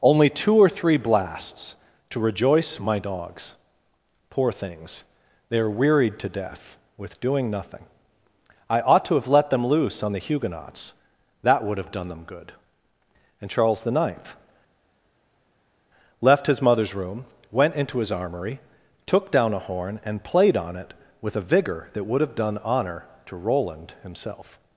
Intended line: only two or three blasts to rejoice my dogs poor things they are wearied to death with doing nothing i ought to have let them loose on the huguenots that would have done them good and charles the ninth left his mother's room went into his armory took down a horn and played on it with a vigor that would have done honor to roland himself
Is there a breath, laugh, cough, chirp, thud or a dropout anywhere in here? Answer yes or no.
no